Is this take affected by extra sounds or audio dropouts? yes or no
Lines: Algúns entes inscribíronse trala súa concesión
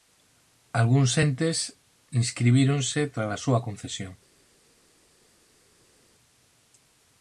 no